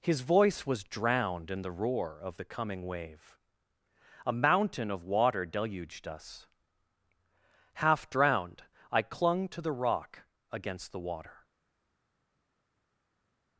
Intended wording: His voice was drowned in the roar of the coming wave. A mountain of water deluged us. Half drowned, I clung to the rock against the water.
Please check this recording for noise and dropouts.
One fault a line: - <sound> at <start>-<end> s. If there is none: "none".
none